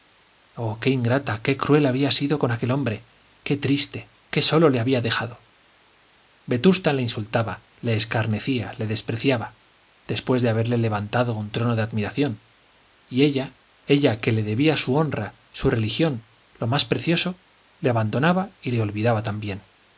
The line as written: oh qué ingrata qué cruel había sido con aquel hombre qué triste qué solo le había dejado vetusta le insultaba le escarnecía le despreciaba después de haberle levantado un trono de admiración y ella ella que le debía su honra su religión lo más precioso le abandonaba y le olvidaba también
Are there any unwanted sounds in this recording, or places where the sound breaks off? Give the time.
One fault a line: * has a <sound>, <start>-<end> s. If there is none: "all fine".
all fine